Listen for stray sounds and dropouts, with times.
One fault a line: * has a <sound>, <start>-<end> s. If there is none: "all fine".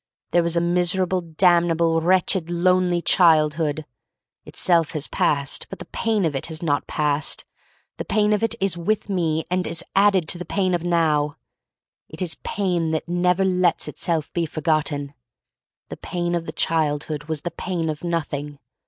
all fine